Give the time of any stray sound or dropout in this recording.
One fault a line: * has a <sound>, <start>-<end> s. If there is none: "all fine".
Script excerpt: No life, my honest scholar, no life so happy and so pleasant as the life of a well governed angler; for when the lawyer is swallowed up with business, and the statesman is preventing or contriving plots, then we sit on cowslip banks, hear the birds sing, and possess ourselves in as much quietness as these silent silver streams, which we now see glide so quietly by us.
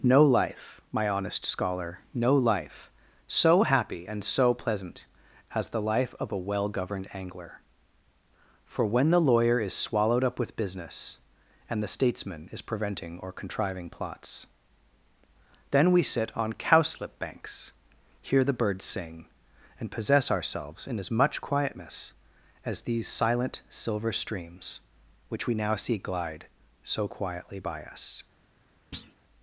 * has a thud, 28.9-29.2 s